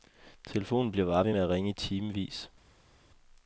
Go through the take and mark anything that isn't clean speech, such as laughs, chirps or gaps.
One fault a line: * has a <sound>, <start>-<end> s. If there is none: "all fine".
all fine